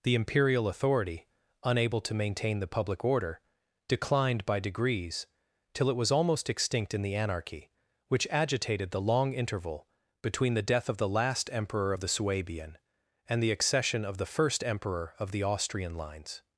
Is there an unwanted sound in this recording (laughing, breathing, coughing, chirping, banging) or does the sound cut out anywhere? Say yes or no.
no